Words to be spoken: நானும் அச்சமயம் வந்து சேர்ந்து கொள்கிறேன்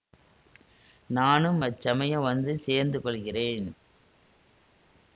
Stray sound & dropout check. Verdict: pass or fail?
pass